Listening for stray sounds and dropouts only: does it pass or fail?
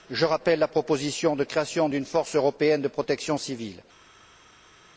pass